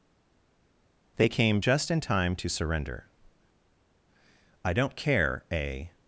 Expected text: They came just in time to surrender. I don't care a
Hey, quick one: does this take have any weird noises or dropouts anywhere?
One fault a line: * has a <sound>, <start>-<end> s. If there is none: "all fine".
all fine